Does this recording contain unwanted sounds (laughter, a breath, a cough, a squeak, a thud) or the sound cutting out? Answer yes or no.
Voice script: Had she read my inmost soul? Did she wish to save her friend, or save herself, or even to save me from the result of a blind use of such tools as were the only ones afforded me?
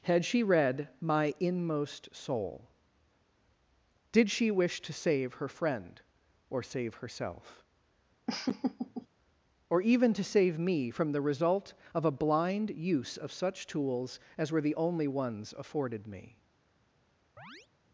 yes